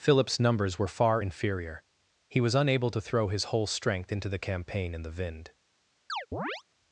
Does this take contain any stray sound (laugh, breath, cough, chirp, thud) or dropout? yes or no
yes